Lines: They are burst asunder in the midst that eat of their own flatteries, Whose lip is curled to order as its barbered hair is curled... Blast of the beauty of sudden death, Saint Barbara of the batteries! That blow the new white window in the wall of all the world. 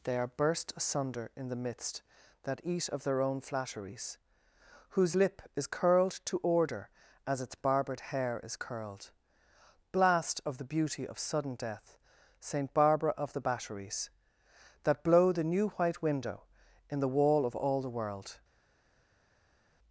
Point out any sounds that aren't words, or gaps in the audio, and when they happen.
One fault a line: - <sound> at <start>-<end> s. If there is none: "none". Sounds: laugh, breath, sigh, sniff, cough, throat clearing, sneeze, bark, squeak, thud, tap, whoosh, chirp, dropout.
none